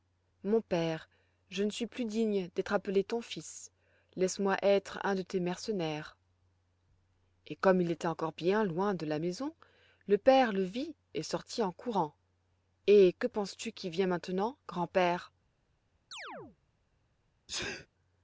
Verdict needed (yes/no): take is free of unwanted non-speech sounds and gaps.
no